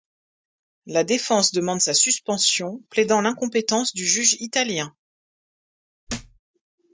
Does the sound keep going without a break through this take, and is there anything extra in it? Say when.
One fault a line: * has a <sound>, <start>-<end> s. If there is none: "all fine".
* has a thud, 6.1-6.4 s